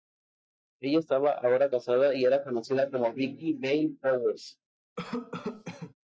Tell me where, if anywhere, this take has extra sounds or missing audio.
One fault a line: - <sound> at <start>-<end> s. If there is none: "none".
- cough at 5.0-5.9 s